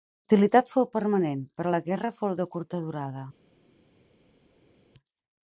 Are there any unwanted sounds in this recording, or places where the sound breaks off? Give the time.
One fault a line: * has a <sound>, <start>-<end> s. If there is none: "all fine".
all fine